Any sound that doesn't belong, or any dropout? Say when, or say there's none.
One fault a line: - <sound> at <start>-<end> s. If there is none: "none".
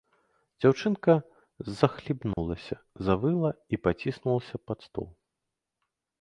- dropout at 2.3-2.4 s